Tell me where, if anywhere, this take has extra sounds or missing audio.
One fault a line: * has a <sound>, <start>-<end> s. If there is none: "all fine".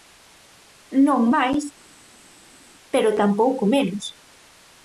all fine